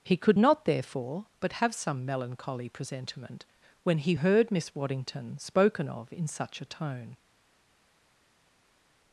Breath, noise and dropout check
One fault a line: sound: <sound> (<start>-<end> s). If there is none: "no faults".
no faults